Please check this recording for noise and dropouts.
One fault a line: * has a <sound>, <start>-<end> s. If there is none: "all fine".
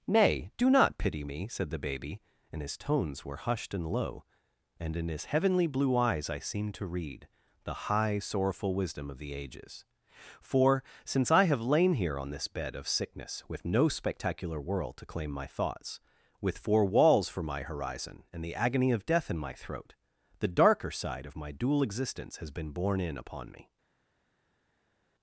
all fine